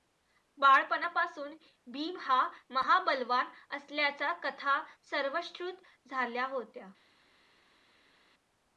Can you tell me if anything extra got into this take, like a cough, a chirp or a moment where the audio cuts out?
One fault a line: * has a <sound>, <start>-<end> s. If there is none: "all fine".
all fine